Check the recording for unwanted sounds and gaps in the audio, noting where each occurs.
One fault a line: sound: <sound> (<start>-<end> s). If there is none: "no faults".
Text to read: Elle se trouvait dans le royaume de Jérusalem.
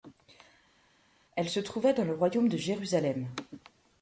no faults